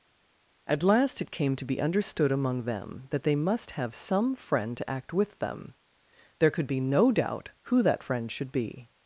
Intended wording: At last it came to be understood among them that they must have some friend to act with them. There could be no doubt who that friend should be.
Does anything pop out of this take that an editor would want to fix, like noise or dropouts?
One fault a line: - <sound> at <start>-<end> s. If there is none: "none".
none